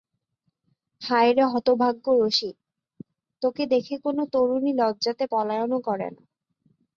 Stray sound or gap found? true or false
false